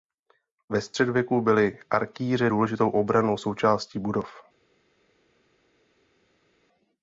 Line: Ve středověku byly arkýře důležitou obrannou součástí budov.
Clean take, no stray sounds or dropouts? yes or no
yes